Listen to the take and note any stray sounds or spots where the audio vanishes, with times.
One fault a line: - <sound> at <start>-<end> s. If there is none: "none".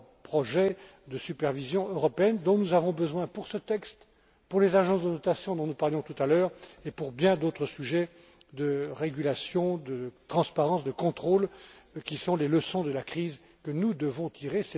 none